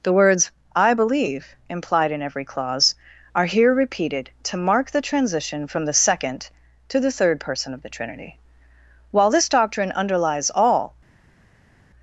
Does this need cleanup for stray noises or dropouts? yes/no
no